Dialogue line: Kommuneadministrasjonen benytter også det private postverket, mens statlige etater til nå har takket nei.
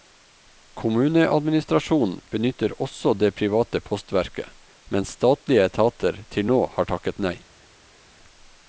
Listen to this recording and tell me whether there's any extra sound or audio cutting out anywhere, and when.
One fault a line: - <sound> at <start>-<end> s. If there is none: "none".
none